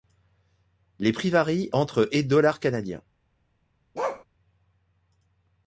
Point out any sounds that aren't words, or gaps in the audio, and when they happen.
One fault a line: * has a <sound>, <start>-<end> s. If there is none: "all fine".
* has a bark, 3.9-4.2 s